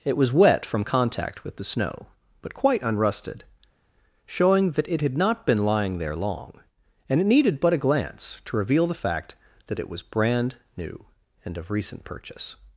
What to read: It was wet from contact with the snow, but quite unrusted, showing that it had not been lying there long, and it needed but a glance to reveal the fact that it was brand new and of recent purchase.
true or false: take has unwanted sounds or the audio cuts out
false